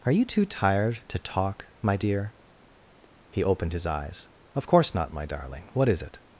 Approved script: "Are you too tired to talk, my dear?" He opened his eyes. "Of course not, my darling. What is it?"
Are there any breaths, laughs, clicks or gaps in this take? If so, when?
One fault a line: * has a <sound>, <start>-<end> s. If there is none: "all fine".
all fine